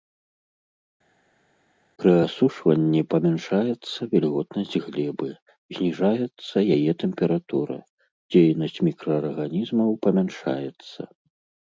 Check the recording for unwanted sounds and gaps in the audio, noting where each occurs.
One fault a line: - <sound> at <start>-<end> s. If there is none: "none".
none